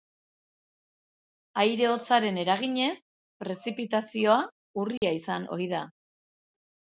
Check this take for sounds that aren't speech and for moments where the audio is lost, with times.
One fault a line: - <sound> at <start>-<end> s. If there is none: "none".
- dropout at 5.0-5.0 s